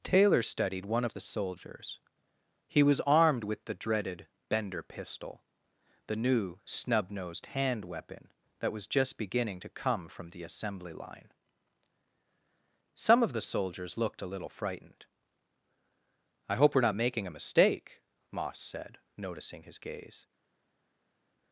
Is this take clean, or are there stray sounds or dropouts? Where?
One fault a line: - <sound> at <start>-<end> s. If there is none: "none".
none